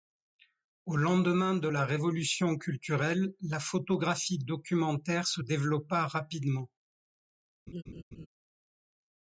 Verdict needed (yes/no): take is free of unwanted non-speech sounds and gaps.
no